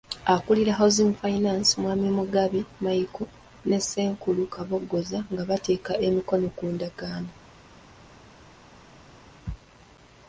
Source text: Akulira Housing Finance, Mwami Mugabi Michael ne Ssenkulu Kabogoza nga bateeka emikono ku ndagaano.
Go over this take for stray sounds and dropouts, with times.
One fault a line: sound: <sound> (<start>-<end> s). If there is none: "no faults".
no faults